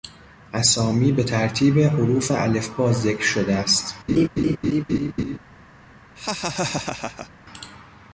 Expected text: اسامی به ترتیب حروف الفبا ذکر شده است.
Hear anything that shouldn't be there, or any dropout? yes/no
yes